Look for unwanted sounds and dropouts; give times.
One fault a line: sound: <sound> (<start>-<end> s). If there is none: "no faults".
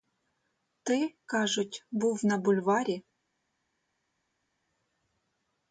no faults